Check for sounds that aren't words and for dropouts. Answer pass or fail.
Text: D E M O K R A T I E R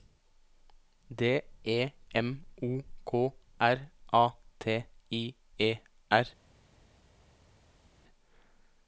pass